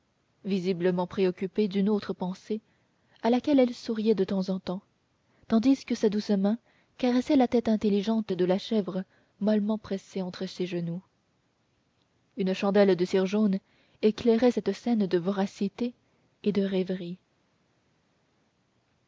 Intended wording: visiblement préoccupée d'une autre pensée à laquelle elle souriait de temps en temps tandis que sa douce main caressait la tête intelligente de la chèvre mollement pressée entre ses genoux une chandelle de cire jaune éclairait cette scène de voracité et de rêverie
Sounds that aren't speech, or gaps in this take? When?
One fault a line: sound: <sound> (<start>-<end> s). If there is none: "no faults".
no faults